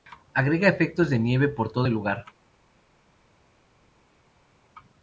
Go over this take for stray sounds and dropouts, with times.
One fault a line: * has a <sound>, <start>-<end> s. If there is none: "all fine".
all fine